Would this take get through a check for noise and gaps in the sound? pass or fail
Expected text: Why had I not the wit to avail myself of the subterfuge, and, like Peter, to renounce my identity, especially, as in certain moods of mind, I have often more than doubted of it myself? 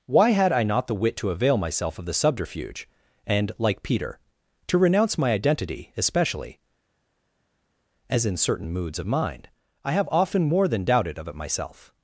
pass